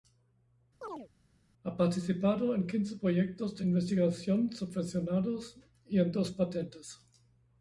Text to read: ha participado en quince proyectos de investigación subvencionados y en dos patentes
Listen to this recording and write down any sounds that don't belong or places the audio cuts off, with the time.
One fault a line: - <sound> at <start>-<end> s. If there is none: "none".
- chirp at 0.8-1.1 s